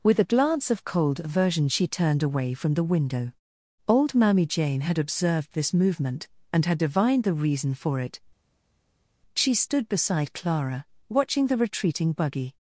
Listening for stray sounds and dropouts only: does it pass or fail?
pass